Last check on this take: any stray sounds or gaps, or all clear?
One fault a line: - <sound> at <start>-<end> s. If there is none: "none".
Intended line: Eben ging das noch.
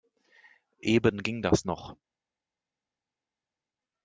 none